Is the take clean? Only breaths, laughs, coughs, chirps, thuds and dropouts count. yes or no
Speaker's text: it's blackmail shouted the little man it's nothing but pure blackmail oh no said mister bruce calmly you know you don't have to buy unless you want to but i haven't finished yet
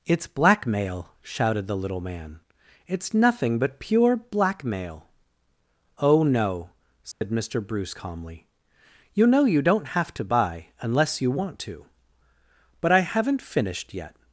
no